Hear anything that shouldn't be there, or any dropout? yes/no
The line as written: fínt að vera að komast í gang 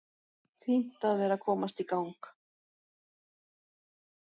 no